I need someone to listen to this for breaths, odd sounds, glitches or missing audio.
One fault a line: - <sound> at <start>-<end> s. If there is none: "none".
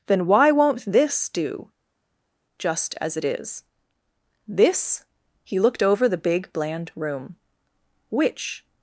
none